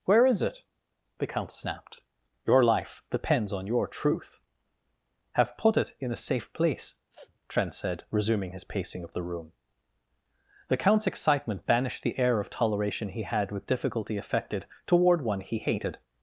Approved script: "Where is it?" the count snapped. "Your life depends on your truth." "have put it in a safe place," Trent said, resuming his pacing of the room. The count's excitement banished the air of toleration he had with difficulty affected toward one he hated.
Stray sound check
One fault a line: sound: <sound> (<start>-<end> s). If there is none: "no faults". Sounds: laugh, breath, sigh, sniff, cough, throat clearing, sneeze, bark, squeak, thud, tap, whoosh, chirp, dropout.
sound: sniff (7.1-7.4 s)